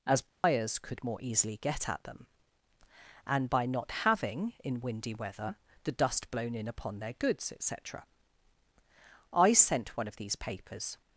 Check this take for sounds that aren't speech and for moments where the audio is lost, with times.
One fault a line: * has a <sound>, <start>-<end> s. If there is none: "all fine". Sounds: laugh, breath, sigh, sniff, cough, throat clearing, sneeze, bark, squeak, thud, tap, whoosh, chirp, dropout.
* has a dropout, 0.3-0.4 s